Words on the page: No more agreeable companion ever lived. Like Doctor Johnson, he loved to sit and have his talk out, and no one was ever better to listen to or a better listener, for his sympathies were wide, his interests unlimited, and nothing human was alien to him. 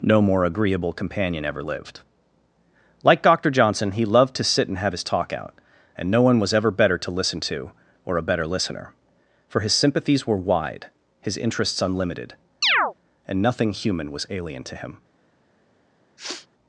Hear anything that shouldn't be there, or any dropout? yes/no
yes